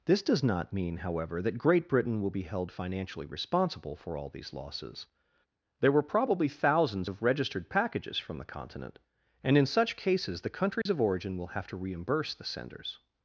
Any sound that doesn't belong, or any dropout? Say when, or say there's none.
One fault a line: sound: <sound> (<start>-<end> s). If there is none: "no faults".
sound: dropout (10.8-10.9 s)